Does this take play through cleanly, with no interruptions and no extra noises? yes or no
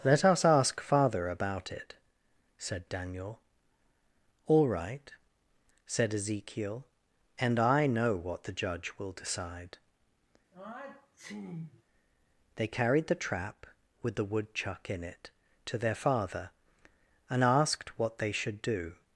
no